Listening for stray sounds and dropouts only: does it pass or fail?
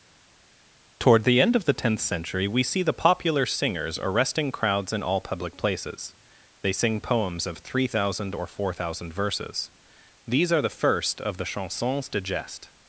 pass